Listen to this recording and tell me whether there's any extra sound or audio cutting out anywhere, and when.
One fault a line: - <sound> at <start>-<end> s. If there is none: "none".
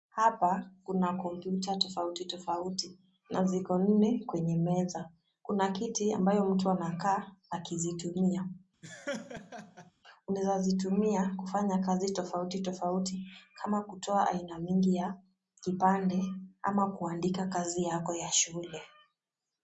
- laugh at 8.8-9.9 s